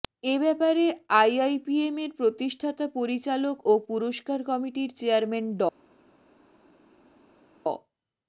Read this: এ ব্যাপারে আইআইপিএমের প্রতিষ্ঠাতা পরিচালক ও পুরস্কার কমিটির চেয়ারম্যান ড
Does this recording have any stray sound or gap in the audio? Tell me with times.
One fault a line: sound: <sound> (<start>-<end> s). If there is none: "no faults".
no faults